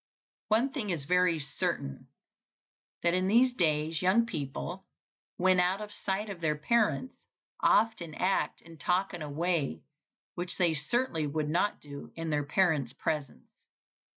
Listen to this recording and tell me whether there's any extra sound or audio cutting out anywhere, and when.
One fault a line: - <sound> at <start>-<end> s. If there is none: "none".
none